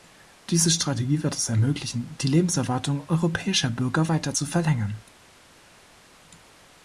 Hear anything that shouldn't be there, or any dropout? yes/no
no